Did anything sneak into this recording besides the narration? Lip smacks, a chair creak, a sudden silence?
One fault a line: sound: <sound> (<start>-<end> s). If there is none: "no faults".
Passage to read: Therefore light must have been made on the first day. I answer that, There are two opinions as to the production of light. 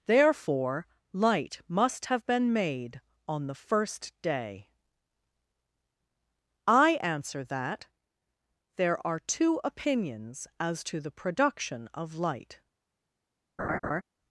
sound: laugh (13.6-14.0 s)